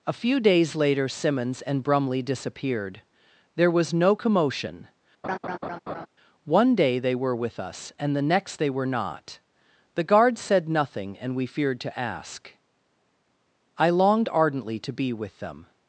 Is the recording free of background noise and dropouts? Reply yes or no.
no